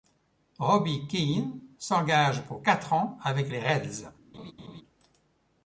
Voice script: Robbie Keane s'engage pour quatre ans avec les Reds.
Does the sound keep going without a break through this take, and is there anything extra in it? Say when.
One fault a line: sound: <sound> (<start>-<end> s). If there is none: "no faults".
sound: laugh (4.3-4.8 s)